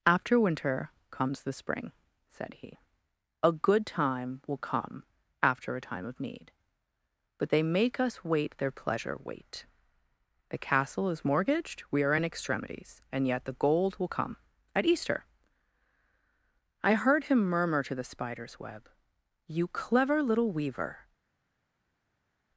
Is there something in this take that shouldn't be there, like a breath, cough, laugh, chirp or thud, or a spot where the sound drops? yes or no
no